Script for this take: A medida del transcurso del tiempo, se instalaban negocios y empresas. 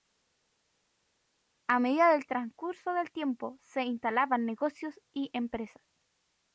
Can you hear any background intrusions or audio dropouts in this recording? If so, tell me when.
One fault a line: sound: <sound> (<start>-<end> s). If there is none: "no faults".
no faults